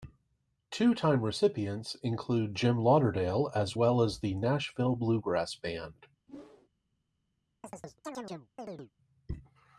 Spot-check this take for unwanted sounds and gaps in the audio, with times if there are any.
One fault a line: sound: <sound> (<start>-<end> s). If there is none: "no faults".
sound: whoosh (6.3-6.7 s)
sound: chirp (7.6-8.9 s)